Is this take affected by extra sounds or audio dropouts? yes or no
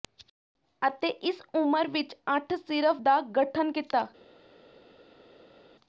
no